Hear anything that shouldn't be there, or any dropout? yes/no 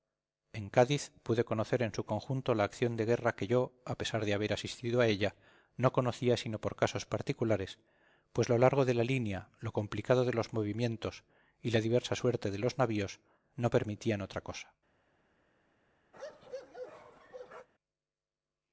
yes